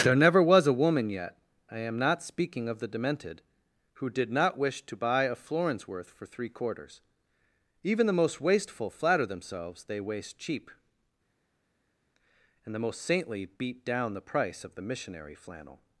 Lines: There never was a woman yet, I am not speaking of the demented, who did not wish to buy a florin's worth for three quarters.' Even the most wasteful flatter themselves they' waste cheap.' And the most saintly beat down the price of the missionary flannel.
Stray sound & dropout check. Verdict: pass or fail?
pass